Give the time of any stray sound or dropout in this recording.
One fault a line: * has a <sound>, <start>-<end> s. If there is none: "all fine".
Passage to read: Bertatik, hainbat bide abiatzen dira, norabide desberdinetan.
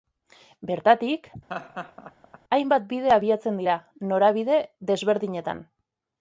* has a laugh, 1.5-2.4 s